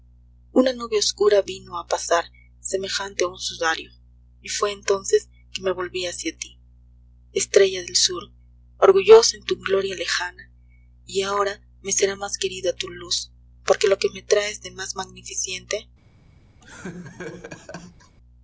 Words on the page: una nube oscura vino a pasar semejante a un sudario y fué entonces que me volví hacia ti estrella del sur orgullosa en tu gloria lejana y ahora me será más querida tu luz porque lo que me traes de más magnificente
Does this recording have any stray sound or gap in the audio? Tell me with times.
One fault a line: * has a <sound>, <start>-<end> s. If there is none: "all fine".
* has a laugh, 16.6-18.2 s